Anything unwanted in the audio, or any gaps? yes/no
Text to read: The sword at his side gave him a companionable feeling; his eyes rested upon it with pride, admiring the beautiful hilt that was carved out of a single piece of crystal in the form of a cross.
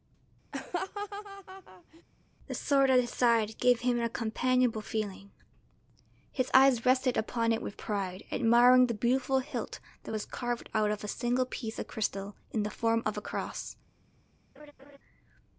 yes